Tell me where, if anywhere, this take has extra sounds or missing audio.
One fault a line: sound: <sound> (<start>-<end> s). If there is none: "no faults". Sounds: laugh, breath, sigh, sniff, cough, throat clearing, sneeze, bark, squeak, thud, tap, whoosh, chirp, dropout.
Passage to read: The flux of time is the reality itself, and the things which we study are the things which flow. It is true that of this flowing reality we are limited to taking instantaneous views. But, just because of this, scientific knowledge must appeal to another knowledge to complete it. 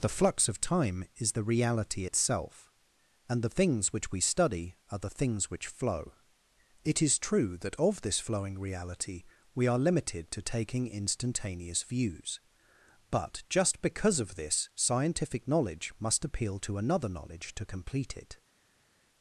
no faults